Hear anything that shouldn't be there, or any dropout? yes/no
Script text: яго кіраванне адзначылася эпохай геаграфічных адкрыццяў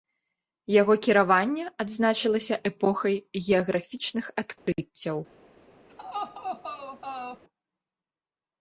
yes